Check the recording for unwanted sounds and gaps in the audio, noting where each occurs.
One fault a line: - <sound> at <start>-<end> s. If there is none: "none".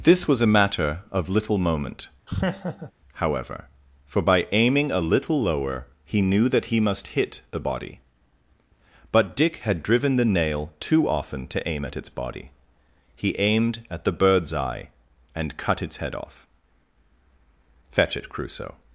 - laugh at 2.3-2.9 s